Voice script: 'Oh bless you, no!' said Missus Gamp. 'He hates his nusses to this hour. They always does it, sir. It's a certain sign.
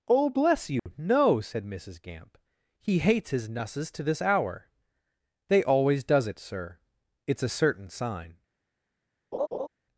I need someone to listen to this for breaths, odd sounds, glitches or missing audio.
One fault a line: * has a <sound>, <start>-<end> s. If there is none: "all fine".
* has a dropout, 0.8-0.9 s
* has a laugh, 9.3-9.7 s